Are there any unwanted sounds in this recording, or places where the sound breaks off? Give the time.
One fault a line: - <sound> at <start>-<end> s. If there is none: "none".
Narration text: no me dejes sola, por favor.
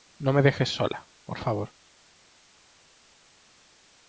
none